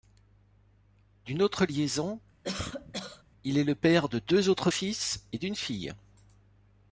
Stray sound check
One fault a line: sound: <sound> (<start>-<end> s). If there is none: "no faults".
sound: cough (2.4-3.2 s)